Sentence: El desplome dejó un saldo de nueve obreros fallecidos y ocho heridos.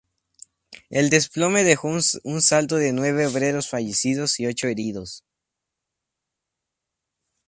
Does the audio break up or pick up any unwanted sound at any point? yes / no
no